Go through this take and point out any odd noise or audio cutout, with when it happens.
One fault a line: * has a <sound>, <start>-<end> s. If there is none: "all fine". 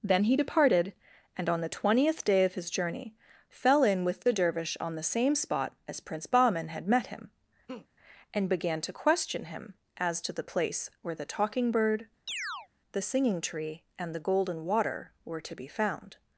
* has a laugh, 7.7-7.9 s
* has a chirp, 12.3-12.7 s